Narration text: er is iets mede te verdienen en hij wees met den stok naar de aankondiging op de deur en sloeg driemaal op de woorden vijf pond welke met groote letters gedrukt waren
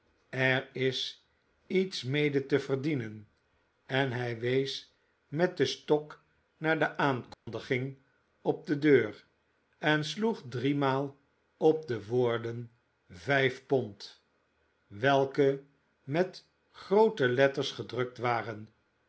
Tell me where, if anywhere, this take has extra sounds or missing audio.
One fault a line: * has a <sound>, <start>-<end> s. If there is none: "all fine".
* has a dropout, 7.3-7.5 s